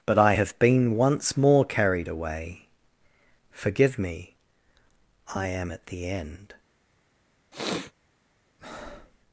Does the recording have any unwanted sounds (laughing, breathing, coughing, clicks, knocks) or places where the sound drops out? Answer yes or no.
yes